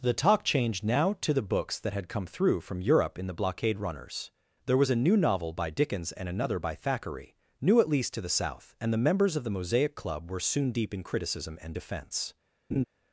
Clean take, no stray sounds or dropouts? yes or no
no